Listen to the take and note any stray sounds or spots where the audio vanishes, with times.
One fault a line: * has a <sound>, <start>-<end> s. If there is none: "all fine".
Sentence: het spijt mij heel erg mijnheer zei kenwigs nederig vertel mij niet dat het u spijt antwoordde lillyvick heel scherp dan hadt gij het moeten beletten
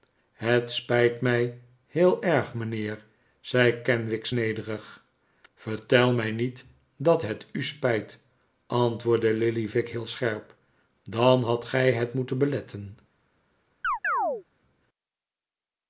* has a chirp, 13.8-14.4 s